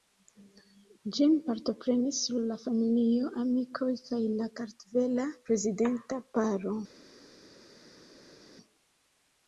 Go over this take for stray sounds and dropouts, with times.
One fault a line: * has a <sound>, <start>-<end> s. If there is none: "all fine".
all fine